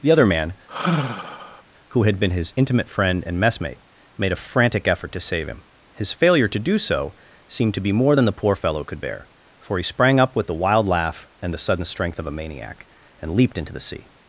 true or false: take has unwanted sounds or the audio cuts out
true